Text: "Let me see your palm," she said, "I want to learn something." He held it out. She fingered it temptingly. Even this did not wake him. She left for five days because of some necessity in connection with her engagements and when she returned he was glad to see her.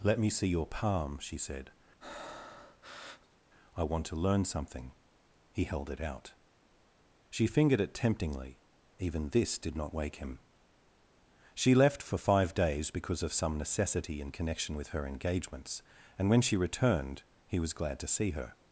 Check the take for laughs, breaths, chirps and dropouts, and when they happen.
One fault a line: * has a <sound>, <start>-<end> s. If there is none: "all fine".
* has a breath, 2.0-3.4 s